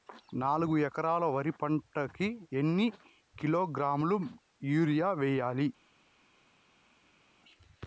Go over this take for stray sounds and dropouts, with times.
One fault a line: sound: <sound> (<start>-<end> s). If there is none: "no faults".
no faults